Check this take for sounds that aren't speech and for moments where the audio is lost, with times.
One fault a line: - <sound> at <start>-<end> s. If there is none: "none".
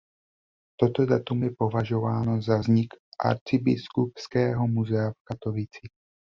none